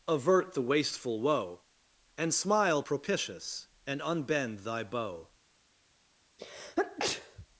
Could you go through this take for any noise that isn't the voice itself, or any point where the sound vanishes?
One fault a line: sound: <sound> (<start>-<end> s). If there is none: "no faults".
sound: sneeze (6.4-7.5 s)